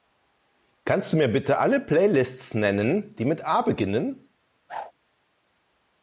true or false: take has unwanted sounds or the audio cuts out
true